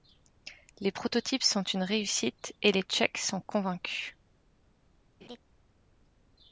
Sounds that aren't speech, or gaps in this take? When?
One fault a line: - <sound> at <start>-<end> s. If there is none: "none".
- laugh at 5.2-5.4 s